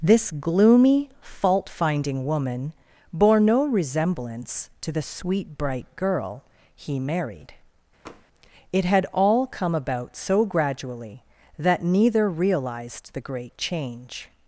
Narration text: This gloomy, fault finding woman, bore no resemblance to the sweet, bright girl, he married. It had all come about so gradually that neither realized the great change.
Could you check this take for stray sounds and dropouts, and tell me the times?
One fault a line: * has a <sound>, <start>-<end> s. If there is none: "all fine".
* has a tap, 8.1-8.3 s